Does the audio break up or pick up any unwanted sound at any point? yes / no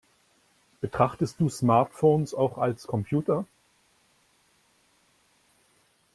no